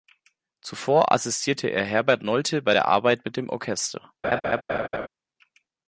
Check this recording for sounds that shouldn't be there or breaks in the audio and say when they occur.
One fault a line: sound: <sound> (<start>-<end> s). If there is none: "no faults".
sound: laugh (4.2-5.1 s)